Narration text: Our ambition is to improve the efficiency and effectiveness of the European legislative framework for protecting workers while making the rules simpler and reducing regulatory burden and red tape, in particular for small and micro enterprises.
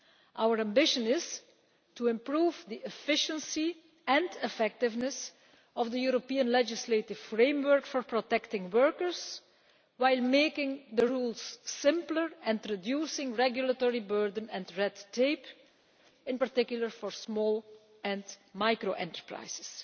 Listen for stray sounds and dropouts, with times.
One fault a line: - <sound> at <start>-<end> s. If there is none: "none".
none